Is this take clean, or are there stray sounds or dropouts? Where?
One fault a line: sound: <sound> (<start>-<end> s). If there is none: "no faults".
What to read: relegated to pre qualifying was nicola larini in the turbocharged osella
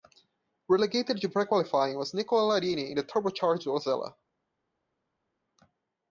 no faults